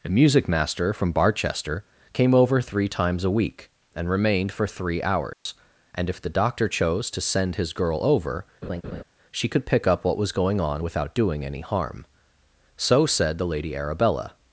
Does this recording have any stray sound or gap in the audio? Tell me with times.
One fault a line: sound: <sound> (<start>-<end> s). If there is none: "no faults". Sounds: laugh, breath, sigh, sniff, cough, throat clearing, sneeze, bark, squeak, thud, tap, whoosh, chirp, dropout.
sound: dropout (5.3-5.5 s)
sound: laugh (8.6-9.0 s)